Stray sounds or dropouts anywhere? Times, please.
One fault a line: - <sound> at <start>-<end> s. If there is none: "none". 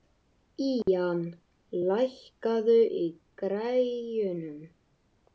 - dropout at 0.8-0.9 s